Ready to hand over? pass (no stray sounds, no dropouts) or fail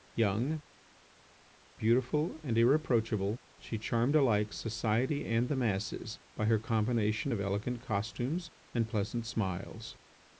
pass